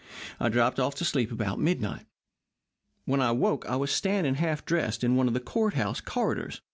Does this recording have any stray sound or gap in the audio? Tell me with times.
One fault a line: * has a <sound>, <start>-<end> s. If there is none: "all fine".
all fine